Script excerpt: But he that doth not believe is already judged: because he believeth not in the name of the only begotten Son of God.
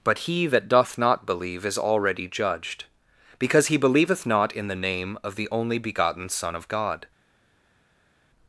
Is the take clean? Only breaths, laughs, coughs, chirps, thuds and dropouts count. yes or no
yes